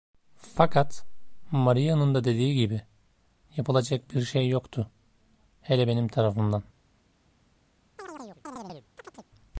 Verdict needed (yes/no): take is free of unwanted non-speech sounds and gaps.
no